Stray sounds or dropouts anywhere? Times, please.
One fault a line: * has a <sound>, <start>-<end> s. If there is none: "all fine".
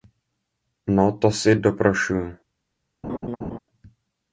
* has a laugh, 3.0-3.6 s